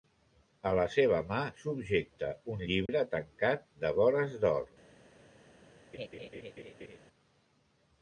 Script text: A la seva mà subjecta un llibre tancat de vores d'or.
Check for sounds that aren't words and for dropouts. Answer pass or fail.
fail